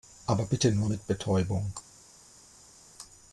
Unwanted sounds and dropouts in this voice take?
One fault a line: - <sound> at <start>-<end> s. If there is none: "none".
none